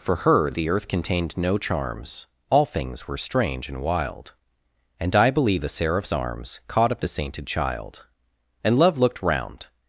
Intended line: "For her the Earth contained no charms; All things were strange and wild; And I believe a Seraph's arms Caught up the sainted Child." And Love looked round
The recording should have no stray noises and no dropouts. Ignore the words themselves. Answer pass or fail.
pass